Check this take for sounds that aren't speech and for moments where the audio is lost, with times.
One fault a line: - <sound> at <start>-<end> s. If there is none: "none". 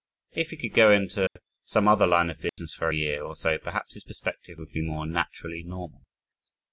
- dropout at 1.3-1.4 s
- dropout at 2.5-2.6 s